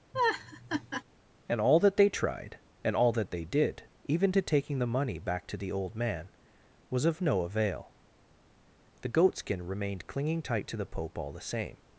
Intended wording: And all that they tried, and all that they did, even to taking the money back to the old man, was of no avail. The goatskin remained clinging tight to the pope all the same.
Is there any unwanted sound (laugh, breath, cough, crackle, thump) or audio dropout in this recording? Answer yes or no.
yes